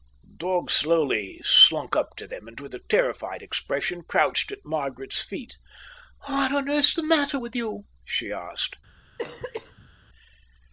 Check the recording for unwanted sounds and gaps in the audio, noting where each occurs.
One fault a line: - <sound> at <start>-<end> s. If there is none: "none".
- cough at 9.2-9.9 s